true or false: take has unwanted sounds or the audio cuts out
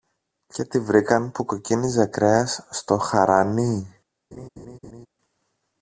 true